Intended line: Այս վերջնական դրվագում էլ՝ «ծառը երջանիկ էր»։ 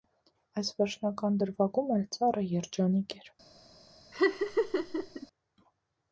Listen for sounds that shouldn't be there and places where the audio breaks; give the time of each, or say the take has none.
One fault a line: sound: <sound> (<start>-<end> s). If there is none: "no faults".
sound: laugh (4.1-5.3 s)